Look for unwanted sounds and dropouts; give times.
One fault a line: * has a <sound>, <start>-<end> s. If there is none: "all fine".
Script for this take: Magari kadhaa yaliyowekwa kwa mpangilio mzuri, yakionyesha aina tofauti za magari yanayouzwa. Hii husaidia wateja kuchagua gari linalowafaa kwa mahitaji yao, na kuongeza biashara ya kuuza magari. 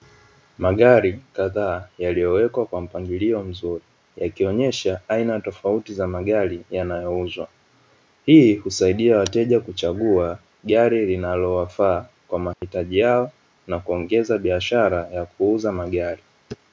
* has a dropout, 12.5-12.6 s